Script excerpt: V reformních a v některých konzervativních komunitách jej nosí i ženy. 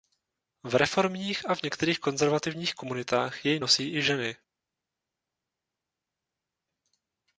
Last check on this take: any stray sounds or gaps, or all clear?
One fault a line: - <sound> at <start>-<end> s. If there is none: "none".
none